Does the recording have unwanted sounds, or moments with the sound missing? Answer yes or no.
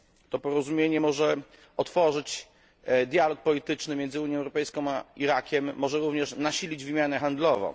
no